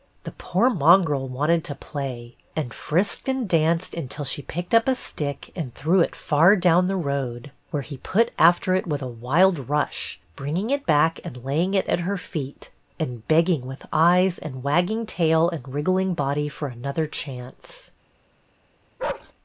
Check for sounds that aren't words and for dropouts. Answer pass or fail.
fail